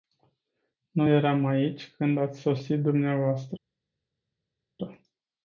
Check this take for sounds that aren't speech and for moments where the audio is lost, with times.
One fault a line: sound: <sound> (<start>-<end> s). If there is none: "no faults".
no faults